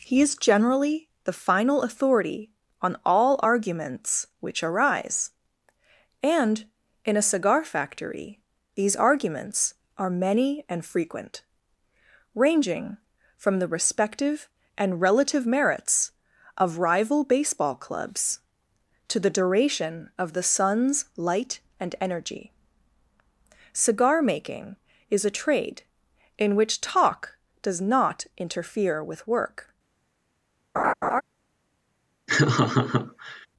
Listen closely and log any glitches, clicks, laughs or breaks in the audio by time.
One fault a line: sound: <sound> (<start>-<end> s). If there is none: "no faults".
sound: laugh (30.7-31.2 s)
sound: laugh (32.3-33.5 s)